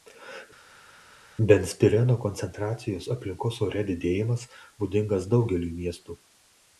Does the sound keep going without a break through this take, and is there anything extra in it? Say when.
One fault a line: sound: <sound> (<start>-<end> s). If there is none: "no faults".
no faults